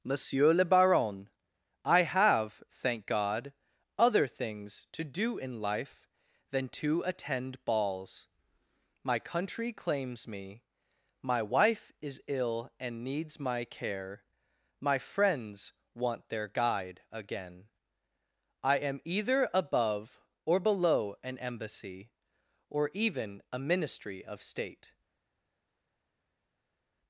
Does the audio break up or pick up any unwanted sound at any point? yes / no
no